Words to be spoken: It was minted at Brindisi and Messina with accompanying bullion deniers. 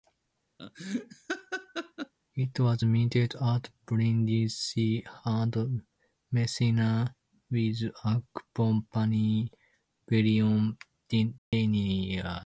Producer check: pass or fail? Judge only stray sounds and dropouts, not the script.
fail